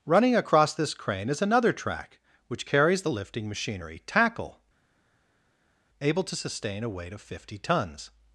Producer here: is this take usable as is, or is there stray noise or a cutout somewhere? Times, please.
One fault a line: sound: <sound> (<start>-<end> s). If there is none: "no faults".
no faults